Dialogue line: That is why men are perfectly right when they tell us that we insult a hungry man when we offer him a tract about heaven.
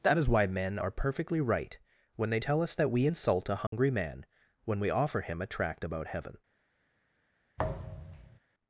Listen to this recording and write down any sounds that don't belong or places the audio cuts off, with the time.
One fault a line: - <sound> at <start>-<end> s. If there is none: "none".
- dropout at 3.7-3.7 s
- thud at 7.6-8.4 s